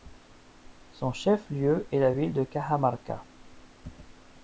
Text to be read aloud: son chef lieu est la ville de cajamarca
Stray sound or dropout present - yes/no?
no